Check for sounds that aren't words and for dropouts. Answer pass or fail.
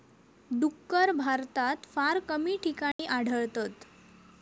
fail